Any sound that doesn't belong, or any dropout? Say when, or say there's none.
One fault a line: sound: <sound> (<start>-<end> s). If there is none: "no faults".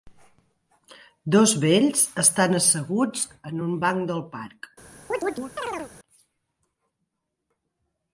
sound: chirp (5.1-5.9 s)